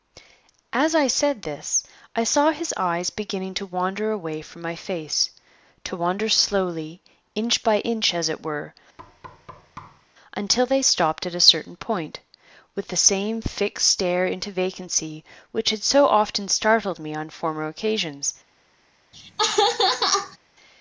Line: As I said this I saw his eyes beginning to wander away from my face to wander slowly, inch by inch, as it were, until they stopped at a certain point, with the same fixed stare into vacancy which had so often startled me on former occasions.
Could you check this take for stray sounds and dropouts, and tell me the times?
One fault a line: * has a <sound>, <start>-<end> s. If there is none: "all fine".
* has a thud, 9.0-10.1 s
* has a laugh, 19.1-20.4 s